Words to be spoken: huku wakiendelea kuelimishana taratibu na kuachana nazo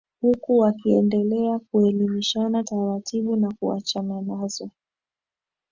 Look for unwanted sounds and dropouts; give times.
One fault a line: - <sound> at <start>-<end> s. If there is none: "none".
none